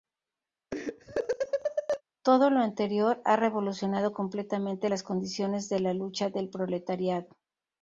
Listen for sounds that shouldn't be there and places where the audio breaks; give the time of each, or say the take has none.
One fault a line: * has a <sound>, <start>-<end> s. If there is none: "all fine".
* has a laugh, 0.7-2.0 s